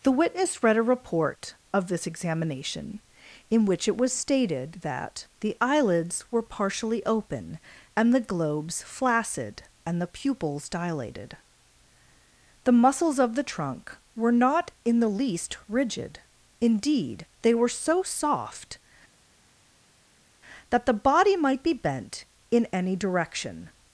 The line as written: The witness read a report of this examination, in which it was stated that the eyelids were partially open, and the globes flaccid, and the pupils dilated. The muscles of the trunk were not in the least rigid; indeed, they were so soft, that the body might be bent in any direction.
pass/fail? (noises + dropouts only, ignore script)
pass